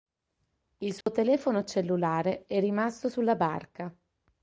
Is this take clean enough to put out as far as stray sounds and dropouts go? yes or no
no